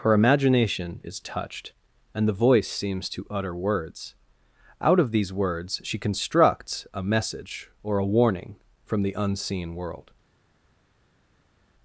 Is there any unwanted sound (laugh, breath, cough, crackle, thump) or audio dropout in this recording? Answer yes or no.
no